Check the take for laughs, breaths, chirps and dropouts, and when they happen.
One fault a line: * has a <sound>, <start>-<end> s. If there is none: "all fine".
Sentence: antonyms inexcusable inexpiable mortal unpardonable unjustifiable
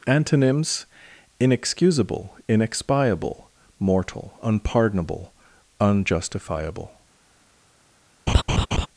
* has a laugh, 8.3-8.9 s